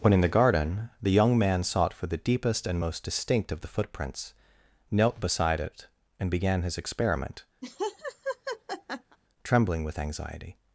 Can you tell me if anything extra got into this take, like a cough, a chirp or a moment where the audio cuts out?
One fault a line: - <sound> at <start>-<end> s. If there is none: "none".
- laugh at 7.6-9.2 s